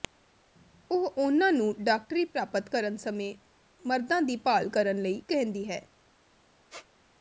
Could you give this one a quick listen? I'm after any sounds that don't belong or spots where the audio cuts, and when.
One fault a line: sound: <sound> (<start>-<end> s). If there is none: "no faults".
sound: squeak (6.7-6.9 s)